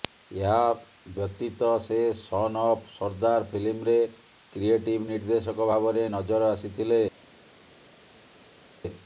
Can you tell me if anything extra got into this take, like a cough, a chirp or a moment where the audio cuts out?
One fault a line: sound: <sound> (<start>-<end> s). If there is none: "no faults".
no faults